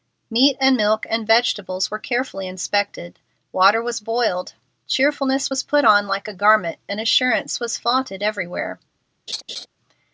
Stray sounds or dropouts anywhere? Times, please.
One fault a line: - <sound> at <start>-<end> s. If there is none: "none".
- laugh at 9.3-9.7 s